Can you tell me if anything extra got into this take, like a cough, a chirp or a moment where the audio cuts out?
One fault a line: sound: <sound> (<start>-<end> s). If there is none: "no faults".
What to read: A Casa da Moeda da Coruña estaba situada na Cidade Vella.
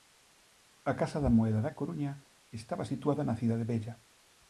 no faults